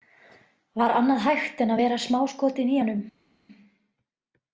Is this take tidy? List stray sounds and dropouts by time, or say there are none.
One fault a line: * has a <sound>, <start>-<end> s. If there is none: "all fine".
all fine